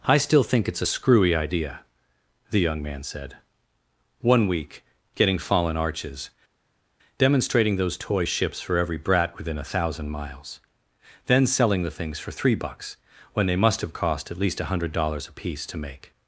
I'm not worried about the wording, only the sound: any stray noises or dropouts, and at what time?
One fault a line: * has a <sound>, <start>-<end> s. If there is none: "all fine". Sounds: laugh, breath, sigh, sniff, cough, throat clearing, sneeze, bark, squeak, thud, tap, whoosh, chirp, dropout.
all fine